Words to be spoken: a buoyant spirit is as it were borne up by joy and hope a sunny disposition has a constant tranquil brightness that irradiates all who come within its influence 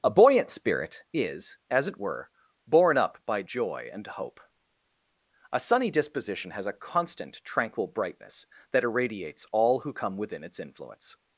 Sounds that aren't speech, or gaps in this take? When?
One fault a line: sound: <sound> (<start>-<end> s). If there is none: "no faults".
no faults